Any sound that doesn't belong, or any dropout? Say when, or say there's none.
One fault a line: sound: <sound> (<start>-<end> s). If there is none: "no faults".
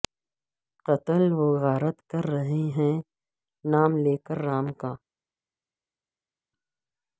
no faults